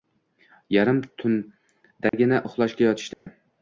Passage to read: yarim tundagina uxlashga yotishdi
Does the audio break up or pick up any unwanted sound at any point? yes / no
yes